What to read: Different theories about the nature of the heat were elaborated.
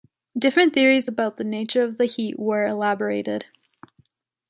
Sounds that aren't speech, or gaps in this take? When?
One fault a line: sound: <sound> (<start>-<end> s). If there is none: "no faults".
no faults